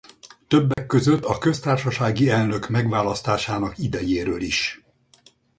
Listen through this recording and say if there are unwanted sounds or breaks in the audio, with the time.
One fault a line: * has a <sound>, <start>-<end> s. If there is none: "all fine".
* has a dropout, 0.7-0.8 s